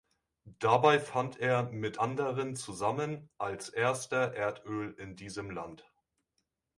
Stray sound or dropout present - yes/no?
no